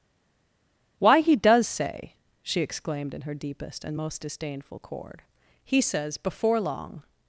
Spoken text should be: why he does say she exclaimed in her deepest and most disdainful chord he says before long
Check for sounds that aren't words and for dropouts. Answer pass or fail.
pass